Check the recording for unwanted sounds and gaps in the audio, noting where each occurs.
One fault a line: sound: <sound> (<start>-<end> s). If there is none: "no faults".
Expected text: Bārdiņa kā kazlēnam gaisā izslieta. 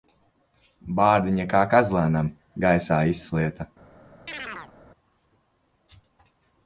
sound: chirp (4.3-4.7 s)